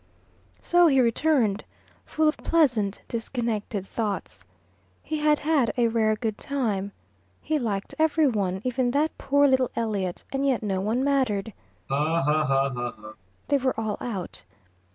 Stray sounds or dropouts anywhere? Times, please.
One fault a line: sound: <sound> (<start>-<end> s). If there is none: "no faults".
sound: laugh (11.9-13.2 s)